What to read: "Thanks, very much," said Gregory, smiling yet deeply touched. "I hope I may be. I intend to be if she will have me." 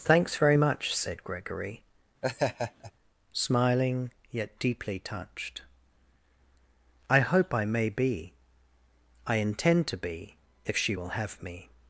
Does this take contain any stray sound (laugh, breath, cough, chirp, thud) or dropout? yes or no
yes